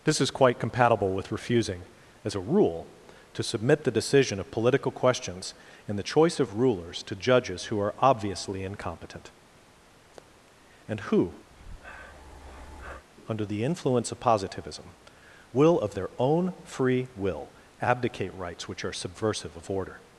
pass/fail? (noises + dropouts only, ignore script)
fail